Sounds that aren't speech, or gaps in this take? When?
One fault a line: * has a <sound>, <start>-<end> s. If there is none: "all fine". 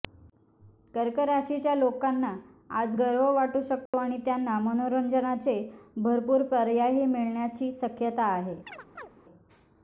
* has a dropout, 3.9-3.9 s
* has a chirp, 8.7-9.1 s